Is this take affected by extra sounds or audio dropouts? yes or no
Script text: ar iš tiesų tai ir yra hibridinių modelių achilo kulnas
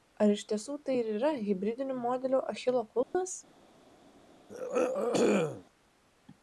yes